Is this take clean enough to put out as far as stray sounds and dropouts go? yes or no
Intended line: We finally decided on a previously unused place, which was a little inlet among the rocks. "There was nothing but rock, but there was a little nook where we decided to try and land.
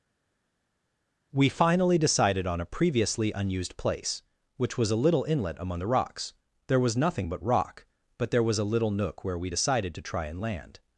yes